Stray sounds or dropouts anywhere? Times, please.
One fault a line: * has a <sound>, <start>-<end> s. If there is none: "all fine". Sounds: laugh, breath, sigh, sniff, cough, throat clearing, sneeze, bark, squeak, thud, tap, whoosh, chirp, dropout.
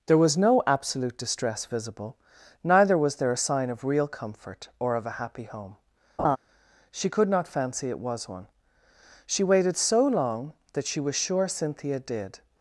* has a laugh, 6.2-6.4 s